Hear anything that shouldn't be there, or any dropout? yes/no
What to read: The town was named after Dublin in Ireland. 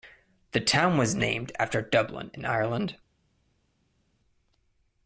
no